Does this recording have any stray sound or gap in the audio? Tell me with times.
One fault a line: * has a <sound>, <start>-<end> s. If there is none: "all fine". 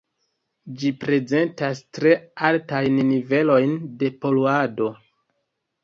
all fine